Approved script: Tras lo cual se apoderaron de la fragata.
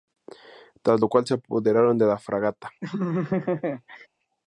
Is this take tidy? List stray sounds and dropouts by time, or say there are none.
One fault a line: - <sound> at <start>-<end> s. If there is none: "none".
- laugh at 2.8-4.1 s